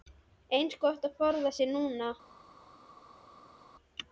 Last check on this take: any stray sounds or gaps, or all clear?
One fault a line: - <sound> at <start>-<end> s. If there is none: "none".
none